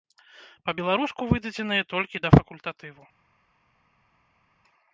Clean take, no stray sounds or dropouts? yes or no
yes